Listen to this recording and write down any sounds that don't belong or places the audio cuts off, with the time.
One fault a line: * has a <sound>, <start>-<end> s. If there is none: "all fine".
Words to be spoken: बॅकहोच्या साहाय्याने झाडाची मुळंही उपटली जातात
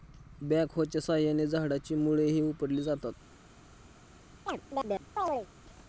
* has a chirp, 4.5-5.5 s